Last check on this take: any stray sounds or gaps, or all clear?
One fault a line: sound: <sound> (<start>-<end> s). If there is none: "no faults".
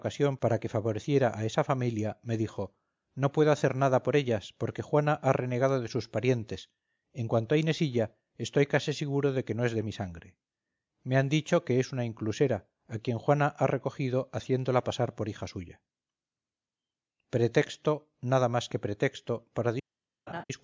sound: laugh (20.3-20.4 s)